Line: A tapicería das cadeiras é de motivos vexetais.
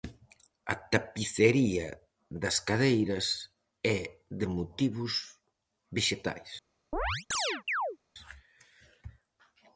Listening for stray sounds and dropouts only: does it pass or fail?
fail